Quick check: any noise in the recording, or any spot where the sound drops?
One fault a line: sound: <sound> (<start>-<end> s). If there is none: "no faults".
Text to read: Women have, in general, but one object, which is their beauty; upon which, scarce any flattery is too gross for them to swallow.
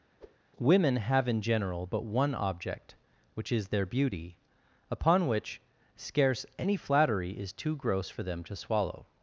sound: whoosh (0.2-0.4 s)